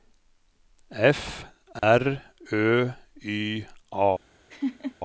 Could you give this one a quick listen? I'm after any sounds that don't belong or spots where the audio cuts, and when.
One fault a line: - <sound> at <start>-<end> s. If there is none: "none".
- dropout at 1.8-1.8 s
- laugh at 4.5-5.0 s